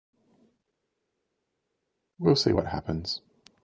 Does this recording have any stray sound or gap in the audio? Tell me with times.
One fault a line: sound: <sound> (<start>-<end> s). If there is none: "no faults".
no faults